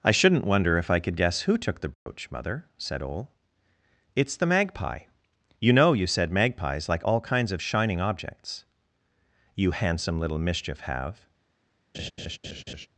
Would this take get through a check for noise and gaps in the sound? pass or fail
fail